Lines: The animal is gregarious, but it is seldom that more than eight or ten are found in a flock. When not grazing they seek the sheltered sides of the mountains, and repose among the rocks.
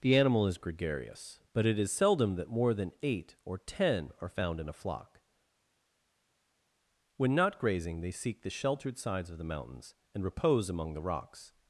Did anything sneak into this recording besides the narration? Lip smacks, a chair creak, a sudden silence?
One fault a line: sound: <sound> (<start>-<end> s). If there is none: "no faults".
no faults